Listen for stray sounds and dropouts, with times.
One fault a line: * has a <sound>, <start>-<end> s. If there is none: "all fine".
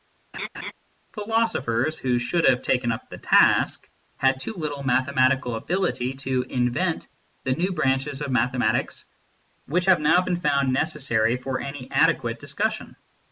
* has a laugh, 0.3-0.7 s